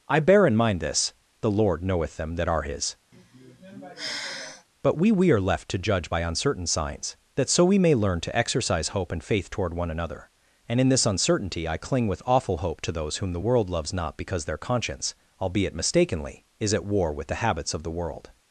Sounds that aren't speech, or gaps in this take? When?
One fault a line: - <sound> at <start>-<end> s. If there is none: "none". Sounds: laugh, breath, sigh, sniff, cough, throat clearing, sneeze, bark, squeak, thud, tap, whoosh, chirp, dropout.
- sigh at 3.1-4.7 s